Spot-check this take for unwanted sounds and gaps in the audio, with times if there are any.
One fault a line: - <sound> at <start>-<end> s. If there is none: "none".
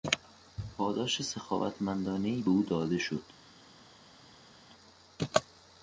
none